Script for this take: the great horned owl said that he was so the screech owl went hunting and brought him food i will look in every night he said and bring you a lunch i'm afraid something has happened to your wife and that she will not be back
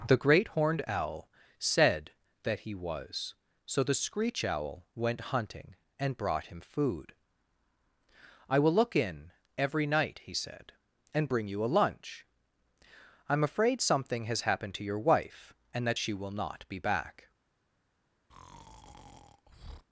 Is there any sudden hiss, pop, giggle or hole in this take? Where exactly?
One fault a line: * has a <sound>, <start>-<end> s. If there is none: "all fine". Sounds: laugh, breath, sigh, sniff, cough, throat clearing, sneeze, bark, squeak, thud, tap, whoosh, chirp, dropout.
* has a breath, 18.3-19.8 s